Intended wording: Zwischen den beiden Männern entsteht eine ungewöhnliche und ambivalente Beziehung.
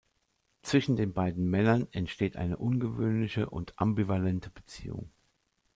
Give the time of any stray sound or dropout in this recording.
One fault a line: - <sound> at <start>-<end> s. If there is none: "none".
none